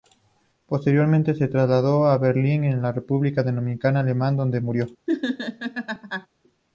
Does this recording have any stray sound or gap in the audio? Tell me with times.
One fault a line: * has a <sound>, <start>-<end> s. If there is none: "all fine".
* has a laugh, 5.1-6.3 s